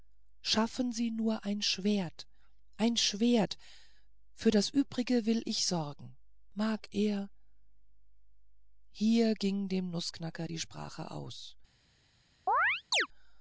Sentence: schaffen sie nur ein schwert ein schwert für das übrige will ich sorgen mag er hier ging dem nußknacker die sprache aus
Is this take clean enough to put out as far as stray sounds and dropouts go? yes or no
no